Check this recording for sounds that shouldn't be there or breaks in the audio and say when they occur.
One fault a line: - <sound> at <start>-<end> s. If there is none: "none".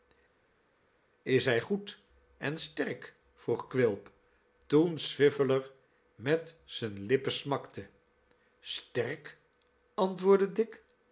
none